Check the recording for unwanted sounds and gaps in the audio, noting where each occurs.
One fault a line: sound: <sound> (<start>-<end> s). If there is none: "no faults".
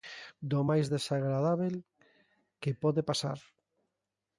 no faults